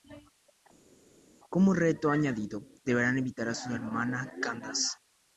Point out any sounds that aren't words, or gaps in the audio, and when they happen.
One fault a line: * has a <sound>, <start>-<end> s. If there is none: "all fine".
all fine